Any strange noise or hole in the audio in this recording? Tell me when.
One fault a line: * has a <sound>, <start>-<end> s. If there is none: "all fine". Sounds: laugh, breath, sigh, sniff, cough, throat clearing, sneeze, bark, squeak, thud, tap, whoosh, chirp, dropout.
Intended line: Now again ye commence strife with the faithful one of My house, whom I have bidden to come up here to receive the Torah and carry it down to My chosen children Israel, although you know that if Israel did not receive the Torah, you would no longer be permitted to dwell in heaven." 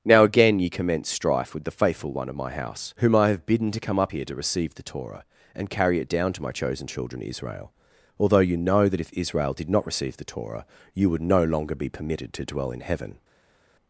all fine